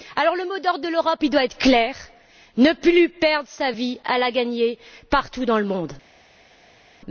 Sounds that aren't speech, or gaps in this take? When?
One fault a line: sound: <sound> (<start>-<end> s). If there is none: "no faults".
no faults